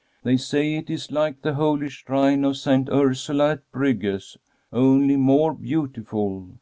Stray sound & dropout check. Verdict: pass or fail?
pass